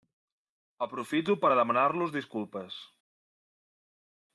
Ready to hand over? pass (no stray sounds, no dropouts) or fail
pass